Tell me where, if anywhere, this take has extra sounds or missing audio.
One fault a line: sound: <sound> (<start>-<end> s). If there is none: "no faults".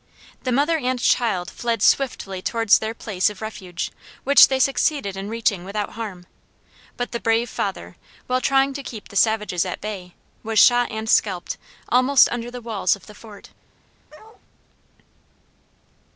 sound: bark (14.1-14.4 s)